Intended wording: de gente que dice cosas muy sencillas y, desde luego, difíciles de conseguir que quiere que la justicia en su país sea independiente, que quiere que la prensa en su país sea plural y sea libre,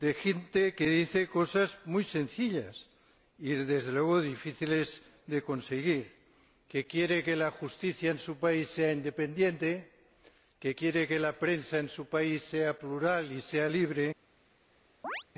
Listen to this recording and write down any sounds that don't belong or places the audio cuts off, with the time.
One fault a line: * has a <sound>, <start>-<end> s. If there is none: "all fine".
* has a chirp, 15.0-15.2 s